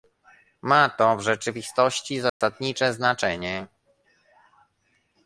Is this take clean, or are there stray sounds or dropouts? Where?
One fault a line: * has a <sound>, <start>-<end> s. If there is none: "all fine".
* has a dropout, 2.3-2.4 s